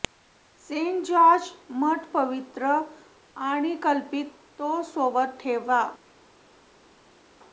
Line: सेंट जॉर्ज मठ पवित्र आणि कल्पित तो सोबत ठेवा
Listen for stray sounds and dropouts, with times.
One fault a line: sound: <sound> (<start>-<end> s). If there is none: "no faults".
no faults